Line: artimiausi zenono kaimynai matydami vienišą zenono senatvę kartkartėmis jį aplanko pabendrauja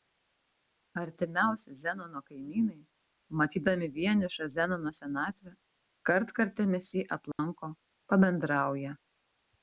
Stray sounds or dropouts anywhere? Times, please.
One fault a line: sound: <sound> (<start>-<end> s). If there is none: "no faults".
sound: dropout (7.3-7.4 s)